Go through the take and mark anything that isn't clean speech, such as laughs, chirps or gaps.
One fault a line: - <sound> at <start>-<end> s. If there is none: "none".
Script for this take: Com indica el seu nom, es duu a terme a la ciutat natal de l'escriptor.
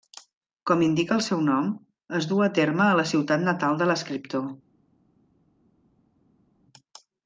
none